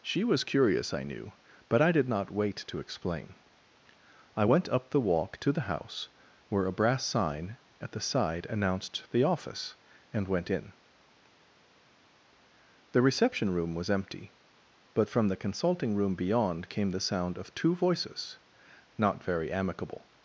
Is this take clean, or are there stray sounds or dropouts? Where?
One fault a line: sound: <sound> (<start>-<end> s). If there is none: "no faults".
no faults